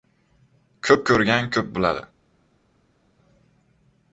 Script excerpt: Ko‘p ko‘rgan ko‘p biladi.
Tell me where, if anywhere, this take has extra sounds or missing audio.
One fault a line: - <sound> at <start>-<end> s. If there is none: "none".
none